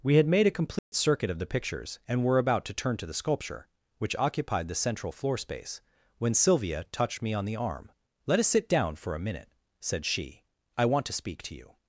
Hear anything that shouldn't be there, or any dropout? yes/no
yes